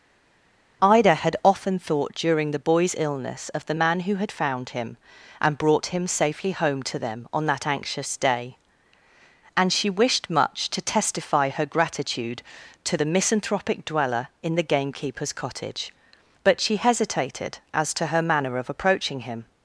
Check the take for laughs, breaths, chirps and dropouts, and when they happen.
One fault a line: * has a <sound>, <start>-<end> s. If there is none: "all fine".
all fine